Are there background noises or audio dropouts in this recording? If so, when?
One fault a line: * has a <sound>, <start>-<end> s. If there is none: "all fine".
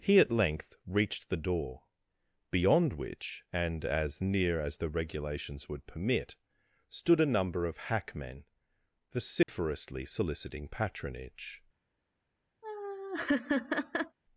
* has a dropout, 9.4-9.5 s
* has a laugh, 12.6-14.2 s